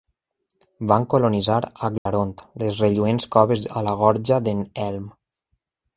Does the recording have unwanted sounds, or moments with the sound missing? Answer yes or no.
yes